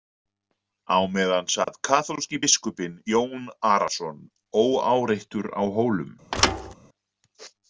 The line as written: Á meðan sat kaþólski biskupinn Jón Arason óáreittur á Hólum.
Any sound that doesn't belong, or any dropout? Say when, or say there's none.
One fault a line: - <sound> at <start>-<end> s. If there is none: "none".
- dropout at 1.6-1.7 s
- thud at 6.3-6.7 s